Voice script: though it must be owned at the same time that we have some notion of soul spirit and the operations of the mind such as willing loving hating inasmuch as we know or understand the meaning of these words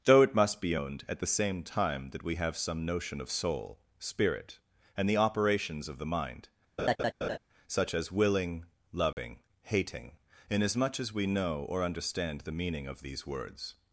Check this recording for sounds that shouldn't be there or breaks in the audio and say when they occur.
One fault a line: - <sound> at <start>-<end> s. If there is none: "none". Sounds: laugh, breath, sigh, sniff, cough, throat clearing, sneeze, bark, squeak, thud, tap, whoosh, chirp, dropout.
- laugh at 6.8-7.4 s
- dropout at 9.1-9.2 s